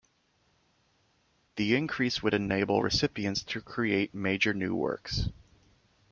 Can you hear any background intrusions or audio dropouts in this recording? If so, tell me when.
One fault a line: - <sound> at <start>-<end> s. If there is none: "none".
none